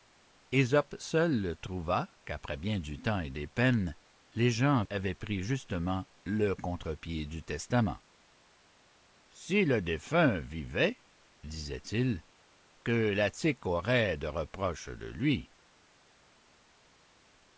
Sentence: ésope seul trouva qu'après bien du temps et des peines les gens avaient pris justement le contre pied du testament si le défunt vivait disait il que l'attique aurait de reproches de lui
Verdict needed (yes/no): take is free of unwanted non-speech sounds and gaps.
yes